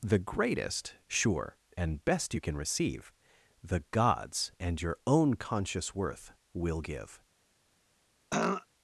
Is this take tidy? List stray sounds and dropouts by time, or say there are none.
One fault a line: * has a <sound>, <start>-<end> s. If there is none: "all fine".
* has a throat clearing, 8.3-8.7 s